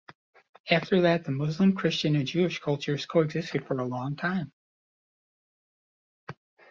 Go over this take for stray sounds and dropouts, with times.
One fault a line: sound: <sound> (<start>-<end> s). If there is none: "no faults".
no faults